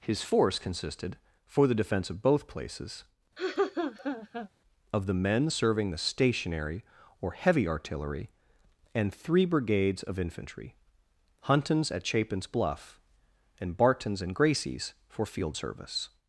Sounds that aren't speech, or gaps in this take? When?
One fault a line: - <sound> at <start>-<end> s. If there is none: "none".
- laugh at 3.4-4.5 s